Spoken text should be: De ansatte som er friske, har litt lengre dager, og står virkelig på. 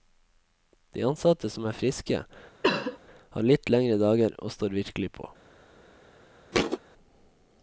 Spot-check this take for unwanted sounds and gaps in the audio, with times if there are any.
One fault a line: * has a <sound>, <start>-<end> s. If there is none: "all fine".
* has a cough, 2.6-3.0 s
* has a thud, 6.5-6.8 s